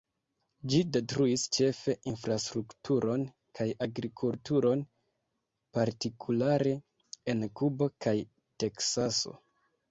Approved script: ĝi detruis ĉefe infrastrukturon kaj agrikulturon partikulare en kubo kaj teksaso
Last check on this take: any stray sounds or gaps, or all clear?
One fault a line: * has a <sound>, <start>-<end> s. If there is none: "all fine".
all fine